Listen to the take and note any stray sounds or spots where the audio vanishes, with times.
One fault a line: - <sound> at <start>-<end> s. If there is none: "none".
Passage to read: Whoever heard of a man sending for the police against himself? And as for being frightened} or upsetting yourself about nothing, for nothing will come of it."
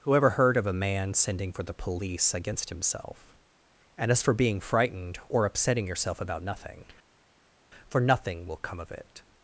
none